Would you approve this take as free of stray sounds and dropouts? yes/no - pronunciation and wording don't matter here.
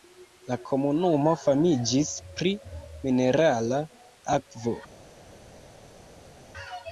yes